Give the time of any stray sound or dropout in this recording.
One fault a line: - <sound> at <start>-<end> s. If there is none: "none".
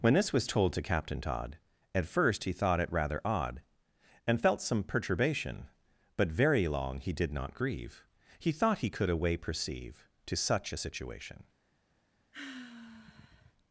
- sigh at 12.3-13.5 s